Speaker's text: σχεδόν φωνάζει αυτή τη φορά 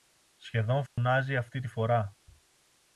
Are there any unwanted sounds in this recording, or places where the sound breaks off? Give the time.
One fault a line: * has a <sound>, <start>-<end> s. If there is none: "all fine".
* has a dropout, 0.9-1.0 s